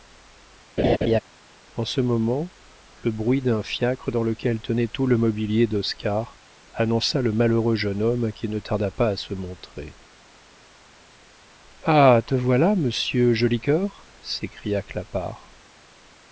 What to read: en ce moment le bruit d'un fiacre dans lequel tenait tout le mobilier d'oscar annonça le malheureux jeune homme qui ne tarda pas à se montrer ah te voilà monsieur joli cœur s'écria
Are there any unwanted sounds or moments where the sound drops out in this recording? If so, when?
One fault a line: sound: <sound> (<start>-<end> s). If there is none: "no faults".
sound: laugh (0.8-1.2 s)